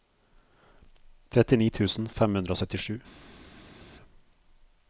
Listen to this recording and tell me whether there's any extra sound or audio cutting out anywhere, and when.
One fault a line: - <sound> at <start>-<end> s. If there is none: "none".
none